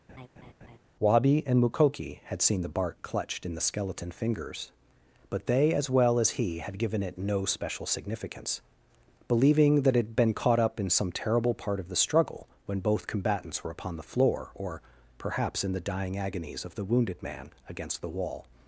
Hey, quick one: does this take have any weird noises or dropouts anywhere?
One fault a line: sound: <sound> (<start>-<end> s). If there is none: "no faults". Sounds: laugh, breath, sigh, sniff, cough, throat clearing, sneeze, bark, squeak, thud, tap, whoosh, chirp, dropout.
sound: laugh (0.1-0.8 s)